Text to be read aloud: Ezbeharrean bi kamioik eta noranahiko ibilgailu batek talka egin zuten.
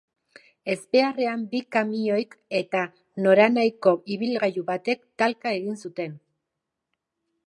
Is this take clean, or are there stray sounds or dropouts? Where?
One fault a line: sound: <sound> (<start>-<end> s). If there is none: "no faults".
no faults